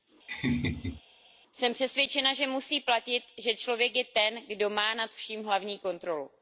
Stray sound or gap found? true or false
true